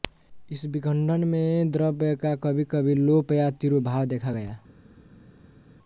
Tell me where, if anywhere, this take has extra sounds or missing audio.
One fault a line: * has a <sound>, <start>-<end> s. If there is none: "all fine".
all fine